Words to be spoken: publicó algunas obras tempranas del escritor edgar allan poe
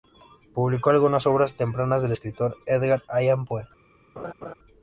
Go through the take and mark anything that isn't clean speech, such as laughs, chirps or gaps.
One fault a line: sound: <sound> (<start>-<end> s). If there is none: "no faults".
sound: laugh (4.2-4.5 s)